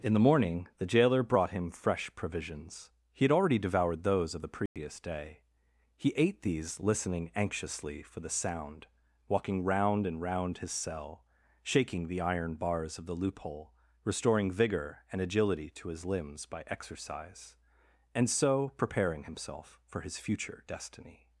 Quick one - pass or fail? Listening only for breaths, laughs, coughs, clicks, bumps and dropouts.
fail